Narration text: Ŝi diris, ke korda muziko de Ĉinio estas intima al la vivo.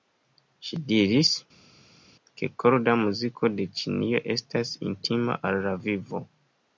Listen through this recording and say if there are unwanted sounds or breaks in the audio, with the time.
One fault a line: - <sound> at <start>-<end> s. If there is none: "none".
none